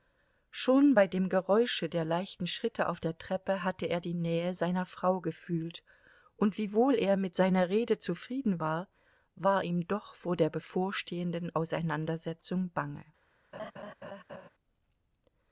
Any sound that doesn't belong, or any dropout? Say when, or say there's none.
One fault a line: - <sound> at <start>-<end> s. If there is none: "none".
- laugh at 13.5-14.5 s